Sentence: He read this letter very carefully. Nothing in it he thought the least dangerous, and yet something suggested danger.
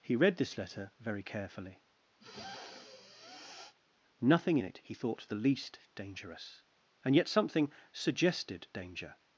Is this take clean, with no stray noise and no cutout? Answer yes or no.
no